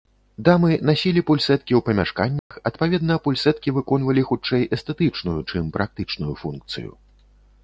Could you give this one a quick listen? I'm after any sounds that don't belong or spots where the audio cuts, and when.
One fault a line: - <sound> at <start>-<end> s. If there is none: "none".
- dropout at 2.4-2.5 s